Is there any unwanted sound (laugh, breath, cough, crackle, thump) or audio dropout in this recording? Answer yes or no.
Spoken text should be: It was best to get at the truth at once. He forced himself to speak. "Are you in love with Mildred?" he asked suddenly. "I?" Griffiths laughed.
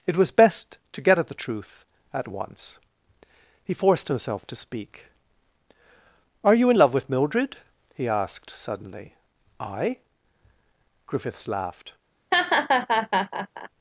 yes